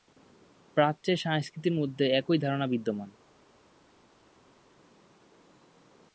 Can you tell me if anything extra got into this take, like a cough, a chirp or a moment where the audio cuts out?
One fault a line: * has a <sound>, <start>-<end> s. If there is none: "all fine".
all fine